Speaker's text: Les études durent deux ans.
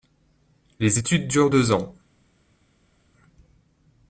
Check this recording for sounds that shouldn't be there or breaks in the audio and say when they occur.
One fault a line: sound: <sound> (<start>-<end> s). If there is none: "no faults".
no faults